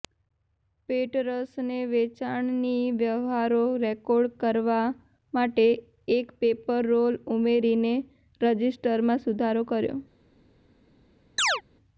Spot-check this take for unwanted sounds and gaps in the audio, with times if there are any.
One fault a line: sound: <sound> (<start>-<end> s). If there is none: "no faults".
sound: chirp (11.4-11.6 s)